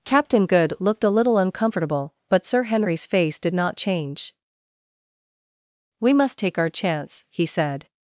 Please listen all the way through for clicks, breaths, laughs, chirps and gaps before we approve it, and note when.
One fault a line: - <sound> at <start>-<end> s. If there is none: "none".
none